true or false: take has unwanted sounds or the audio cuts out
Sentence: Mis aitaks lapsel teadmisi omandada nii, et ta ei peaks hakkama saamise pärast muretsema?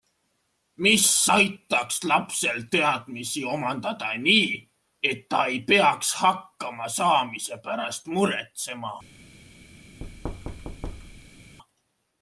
true